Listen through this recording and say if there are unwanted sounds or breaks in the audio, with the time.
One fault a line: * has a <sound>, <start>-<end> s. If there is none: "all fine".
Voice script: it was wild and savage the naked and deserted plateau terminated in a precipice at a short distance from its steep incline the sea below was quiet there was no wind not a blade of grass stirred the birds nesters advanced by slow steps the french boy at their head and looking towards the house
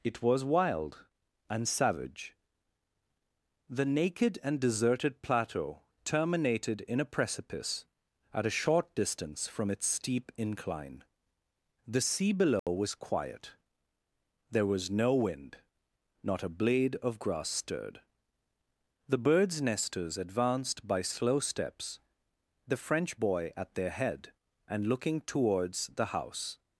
* has a dropout, 12.6-12.7 s